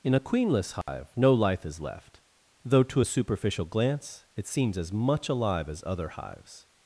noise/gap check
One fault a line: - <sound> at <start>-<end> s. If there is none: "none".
- dropout at 0.8-0.9 s